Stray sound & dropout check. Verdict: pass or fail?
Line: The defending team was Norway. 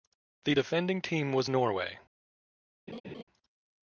fail